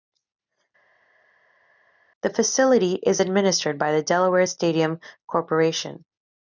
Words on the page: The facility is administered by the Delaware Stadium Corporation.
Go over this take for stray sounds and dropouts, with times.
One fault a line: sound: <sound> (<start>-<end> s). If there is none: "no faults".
no faults